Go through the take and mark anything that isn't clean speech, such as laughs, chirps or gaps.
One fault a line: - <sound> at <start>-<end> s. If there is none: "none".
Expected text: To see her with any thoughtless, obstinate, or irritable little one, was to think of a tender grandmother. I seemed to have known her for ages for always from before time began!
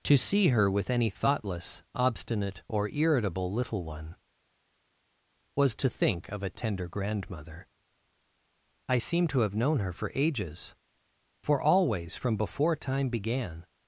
none